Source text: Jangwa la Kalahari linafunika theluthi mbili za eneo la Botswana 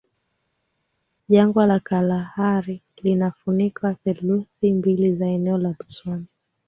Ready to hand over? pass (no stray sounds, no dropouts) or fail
pass